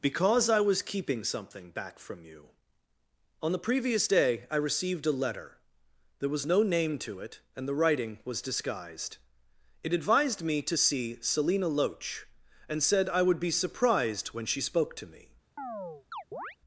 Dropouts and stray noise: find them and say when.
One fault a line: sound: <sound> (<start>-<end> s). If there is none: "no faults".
sound: chirp (15.6-16.6 s)